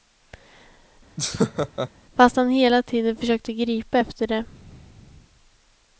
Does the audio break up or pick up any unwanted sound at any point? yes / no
yes